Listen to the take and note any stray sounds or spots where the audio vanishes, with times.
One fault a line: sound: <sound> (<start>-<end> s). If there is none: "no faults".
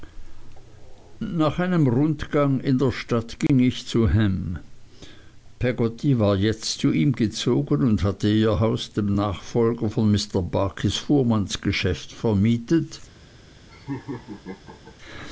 sound: dropout (3.5-3.5 s)
sound: laugh (13.7-15.0 s)